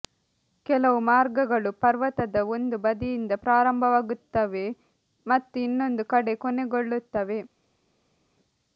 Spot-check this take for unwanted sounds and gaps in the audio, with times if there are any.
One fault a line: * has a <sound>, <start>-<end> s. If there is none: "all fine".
all fine